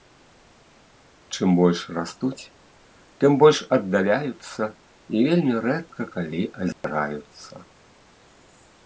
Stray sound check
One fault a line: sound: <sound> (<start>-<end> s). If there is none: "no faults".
sound: dropout (6.7-6.8 s)